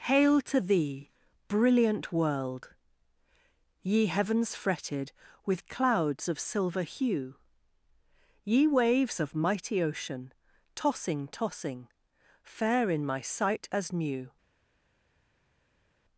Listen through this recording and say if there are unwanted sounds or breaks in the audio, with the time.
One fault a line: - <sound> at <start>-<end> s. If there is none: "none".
none